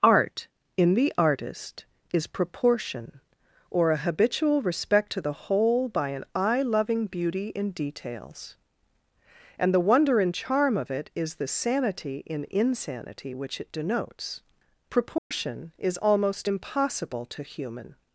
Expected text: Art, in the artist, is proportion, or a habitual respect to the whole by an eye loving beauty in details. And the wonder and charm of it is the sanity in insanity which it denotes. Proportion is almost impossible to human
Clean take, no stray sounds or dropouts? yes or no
no